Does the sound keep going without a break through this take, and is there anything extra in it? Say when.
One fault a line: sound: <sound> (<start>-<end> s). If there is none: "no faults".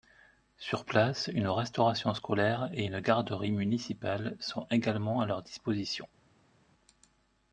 no faults